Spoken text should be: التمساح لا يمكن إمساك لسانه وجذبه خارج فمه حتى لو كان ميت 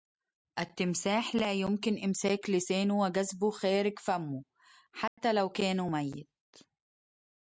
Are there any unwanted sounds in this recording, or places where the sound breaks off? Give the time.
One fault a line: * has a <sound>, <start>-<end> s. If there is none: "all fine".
* has a dropout, 5.1-5.2 s